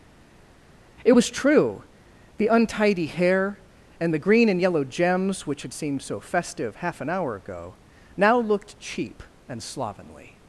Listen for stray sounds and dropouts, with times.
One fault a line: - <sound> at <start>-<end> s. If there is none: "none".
none